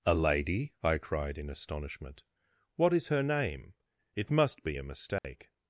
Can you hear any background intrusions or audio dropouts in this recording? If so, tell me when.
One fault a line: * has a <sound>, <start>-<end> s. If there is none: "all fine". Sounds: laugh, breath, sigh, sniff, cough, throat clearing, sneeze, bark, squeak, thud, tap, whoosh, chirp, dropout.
* has a dropout, 5.2-5.2 s